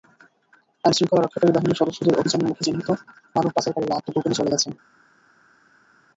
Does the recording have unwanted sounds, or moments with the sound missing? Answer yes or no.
no